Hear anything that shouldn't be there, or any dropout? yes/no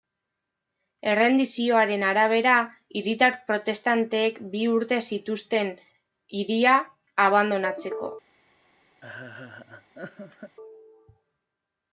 yes